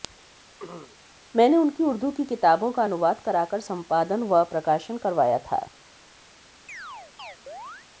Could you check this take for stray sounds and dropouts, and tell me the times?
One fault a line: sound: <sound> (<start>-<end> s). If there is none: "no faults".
sound: throat clearing (0.6-1.0 s)
sound: chirp (6.7-7.9 s)